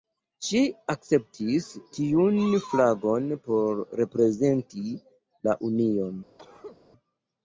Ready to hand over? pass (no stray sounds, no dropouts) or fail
fail